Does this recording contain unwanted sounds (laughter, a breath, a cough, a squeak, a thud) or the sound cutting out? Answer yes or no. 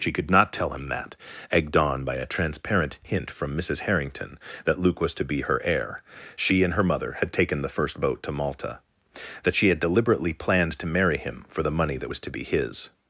no